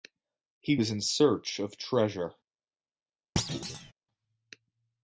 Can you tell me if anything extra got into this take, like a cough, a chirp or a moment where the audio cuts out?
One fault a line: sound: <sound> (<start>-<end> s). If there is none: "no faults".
sound: thud (3.4-3.9 s)